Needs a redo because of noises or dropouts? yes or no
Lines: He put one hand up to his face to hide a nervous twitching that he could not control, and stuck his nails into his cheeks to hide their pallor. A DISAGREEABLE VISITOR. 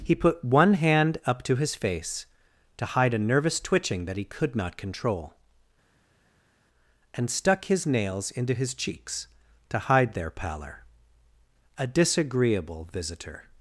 no